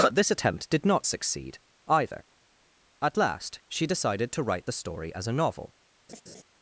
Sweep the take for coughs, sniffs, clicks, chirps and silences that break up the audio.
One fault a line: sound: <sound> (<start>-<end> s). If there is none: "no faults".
sound: laugh (6.1-6.4 s)